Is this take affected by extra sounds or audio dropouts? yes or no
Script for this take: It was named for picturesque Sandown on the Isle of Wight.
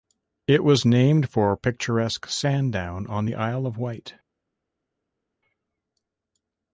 no